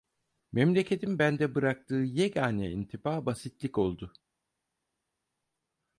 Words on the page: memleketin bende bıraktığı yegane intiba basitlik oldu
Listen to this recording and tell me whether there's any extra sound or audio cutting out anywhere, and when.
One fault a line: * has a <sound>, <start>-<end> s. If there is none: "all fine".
all fine